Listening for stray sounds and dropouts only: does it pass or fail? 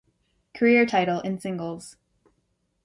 pass